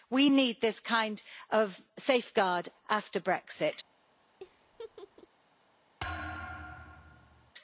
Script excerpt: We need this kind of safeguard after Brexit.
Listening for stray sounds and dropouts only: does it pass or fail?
fail